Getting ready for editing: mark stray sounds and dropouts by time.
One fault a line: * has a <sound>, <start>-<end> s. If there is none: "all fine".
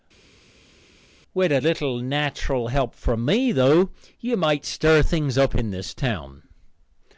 all fine